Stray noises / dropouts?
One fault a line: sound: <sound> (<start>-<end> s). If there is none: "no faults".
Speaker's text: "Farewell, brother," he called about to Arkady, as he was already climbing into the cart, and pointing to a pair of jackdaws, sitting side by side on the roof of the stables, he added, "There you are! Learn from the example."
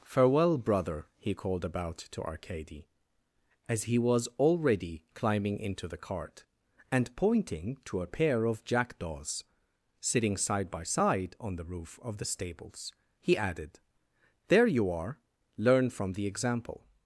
no faults